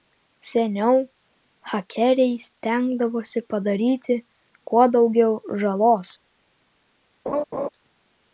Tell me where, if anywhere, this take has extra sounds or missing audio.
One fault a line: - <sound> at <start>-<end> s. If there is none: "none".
- laugh at 7.3-7.7 s